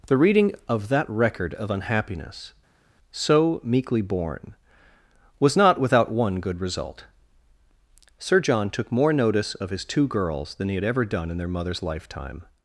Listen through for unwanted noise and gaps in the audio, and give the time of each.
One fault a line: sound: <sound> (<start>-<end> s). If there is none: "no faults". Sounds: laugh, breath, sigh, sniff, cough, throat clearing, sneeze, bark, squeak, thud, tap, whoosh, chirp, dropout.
no faults